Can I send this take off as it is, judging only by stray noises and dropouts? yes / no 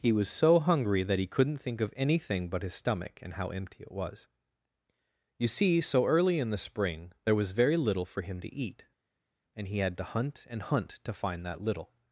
yes